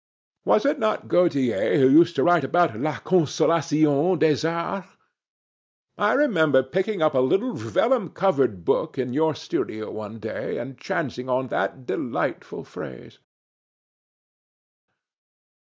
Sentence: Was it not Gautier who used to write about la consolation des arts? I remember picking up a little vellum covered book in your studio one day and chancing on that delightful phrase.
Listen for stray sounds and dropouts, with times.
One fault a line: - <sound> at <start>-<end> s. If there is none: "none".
none